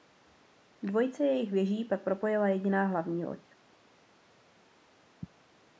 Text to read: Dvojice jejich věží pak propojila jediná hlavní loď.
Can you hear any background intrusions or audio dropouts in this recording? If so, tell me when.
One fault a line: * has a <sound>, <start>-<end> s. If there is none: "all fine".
all fine